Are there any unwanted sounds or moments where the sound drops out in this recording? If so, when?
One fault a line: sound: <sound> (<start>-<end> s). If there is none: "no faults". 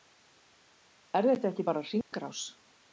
sound: dropout (2.0-2.1 s)